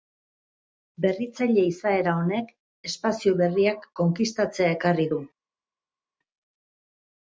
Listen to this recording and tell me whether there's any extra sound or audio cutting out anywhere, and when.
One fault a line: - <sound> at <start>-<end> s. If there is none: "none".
none